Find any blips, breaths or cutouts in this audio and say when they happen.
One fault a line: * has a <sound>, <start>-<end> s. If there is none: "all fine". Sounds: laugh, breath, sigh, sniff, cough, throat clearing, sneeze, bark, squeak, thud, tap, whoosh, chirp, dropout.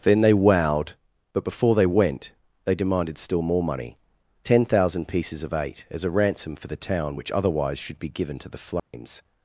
* has a dropout, 8.8-8.9 s